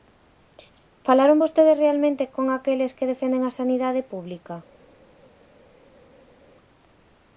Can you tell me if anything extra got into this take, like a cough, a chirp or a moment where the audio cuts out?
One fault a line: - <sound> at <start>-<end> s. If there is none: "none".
none